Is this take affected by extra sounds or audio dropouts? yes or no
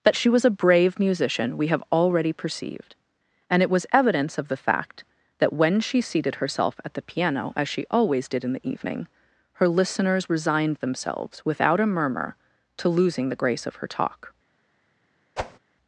yes